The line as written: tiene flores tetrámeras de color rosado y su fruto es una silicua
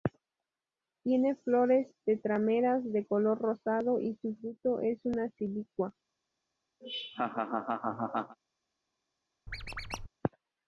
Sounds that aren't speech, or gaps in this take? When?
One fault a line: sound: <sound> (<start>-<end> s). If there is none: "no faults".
sound: laugh (6.8-8.4 s)
sound: squeak (9.5-10.1 s)